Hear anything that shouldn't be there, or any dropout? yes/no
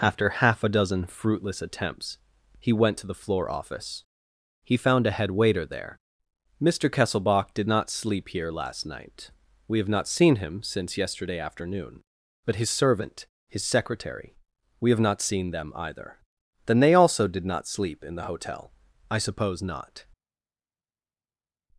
no